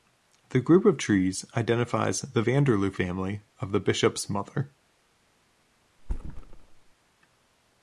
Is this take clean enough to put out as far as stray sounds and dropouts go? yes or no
no